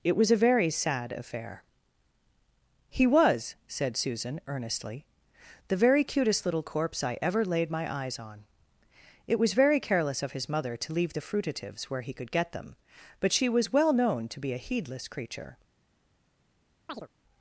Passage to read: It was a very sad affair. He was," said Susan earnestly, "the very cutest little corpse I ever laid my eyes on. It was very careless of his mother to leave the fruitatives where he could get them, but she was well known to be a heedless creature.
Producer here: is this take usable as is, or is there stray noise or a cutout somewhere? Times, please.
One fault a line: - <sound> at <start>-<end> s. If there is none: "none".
- chirp at 16.9-17.1 s